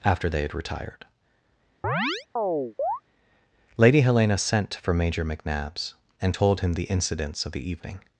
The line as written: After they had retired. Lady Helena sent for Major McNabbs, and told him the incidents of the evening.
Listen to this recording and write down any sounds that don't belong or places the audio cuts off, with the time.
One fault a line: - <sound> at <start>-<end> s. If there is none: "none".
- chirp at 1.8-3.0 s